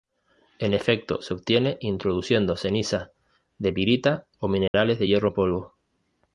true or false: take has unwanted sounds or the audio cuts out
true